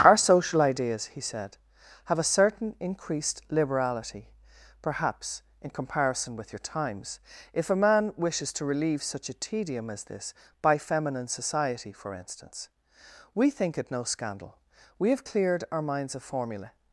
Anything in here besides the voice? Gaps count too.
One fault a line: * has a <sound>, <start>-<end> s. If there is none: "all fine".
all fine